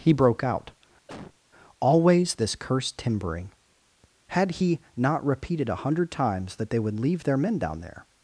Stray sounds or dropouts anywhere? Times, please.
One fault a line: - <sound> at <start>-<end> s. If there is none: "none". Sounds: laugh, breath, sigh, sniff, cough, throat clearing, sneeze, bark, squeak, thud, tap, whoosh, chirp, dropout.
- cough at 1.1-1.4 s